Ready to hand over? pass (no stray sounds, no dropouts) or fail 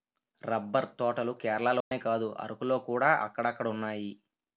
fail